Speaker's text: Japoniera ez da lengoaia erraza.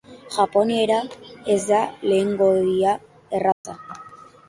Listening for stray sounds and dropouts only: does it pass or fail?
fail